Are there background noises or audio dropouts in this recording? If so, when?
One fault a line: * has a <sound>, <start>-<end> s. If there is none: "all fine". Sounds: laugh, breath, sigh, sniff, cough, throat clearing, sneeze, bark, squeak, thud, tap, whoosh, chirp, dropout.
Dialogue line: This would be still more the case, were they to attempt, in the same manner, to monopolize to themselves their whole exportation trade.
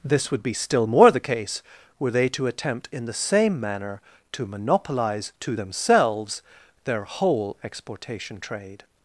all fine